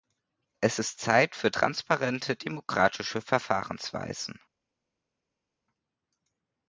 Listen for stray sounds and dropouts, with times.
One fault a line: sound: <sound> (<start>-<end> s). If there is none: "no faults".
no faults